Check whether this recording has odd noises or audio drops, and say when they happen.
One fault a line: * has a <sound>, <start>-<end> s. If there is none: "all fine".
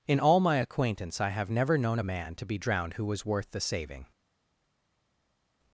all fine